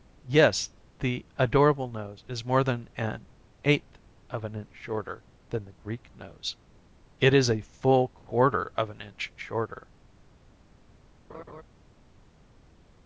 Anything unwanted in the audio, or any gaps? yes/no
yes